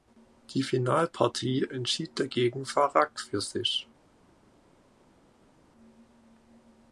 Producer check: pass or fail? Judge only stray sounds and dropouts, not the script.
pass